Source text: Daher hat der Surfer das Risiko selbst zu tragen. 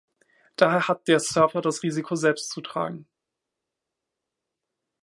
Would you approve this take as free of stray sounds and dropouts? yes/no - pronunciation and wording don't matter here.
yes